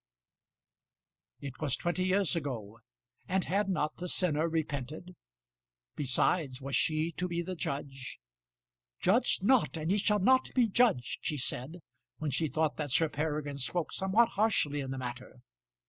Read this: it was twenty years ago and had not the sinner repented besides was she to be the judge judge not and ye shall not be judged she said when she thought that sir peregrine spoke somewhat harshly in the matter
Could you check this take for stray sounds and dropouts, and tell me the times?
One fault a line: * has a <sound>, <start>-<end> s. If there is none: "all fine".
all fine